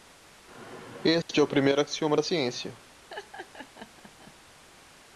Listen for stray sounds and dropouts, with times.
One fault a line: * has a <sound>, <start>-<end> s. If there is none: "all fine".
* has a dropout, 1.2-1.3 s
* has a laugh, 3.1-4.3 s